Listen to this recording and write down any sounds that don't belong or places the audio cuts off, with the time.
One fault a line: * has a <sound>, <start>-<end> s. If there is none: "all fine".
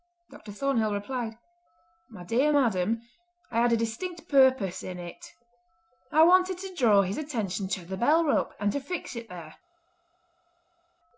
all fine